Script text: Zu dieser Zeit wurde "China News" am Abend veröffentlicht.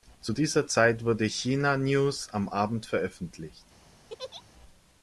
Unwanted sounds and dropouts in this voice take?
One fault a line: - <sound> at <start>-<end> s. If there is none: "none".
- laugh at 4.1-4.4 s